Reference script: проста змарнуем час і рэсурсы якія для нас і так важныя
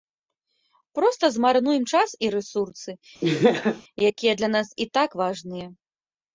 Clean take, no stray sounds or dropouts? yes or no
no